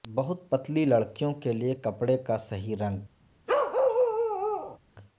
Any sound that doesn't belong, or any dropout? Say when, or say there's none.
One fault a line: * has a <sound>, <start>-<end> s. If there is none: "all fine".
* has a bark, 3.5-4.8 s